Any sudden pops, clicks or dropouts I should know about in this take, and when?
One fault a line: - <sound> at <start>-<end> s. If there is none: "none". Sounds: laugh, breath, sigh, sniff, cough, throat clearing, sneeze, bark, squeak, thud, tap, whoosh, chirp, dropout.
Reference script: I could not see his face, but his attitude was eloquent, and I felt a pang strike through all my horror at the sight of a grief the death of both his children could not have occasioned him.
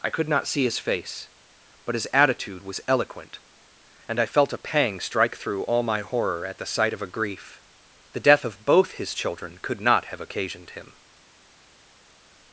none